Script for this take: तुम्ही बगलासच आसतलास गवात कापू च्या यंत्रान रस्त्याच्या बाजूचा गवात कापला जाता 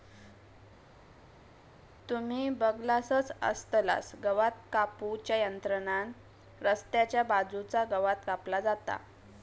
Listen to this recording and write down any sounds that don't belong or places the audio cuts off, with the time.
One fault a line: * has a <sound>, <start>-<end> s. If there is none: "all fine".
all fine